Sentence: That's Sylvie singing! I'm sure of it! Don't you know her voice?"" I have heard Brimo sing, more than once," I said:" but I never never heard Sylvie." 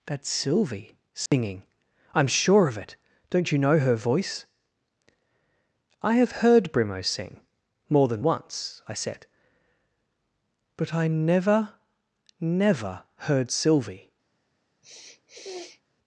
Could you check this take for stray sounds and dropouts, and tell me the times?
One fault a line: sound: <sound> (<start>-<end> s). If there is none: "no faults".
sound: dropout (1.3-1.3 s)
sound: sniff (14.8-15.8 s)